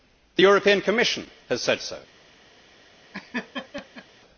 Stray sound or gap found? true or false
true